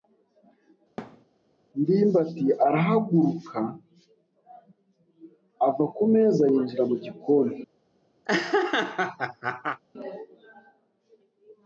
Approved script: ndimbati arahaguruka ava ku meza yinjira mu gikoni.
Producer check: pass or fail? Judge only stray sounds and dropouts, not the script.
fail